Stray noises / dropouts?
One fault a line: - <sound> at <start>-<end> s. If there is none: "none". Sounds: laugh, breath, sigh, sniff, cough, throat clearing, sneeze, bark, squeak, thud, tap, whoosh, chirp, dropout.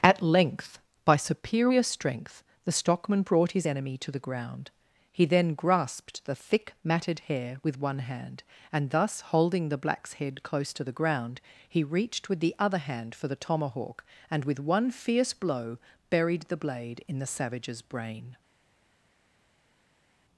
none